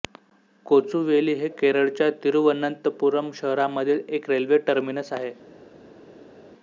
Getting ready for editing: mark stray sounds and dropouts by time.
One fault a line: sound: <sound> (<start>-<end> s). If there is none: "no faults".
no faults